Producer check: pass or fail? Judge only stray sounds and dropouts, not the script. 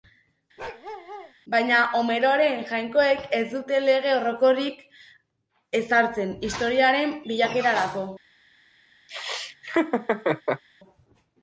fail